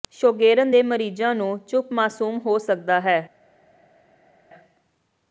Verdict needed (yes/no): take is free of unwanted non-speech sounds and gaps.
yes